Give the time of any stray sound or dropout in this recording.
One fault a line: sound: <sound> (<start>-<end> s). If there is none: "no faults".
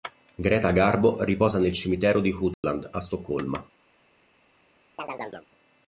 sound: dropout (2.5-2.6 s)
sound: chirp (5.0-5.5 s)